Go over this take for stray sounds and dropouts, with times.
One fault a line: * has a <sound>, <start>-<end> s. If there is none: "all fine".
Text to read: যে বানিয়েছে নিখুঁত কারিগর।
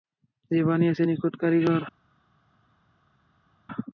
all fine